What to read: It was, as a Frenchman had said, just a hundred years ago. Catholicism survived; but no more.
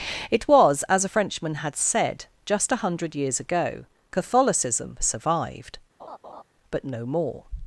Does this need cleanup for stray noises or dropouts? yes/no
yes